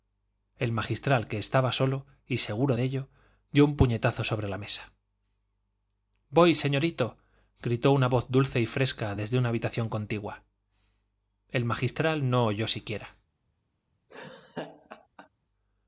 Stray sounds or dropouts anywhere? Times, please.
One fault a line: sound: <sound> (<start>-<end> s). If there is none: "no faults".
sound: laugh (14.1-15.3 s)